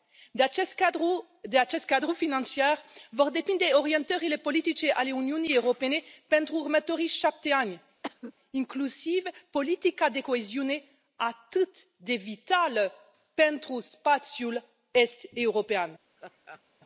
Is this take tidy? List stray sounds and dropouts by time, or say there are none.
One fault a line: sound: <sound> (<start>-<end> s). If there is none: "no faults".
sound: cough (8.0-8.3 s)
sound: laugh (16.2-16.6 s)